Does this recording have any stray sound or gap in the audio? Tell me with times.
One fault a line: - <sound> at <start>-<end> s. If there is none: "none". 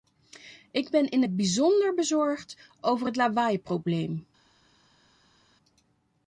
none